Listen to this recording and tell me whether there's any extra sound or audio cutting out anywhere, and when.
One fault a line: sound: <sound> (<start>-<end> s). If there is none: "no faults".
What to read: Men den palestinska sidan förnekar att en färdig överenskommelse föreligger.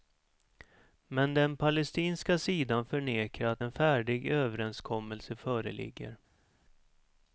no faults